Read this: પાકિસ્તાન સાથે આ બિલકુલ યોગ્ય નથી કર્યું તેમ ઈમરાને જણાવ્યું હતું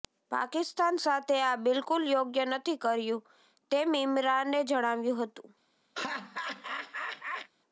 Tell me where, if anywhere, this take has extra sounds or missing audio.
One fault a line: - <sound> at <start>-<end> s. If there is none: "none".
- laugh at 6.0-7.5 s